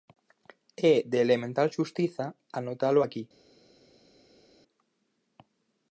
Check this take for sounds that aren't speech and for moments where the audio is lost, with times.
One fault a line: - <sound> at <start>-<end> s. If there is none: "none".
none